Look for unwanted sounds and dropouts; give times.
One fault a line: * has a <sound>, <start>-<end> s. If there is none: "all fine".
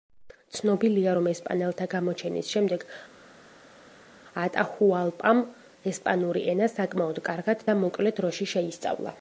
all fine